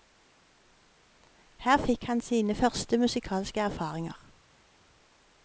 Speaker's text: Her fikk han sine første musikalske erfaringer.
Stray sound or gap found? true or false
false